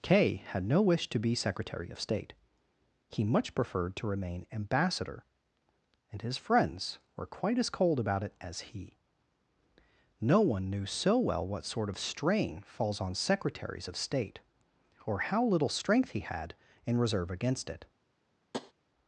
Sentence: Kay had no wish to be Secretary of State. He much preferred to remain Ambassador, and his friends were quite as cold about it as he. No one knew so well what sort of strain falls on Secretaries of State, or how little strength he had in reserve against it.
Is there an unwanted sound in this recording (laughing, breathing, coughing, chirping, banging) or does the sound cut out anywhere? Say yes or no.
yes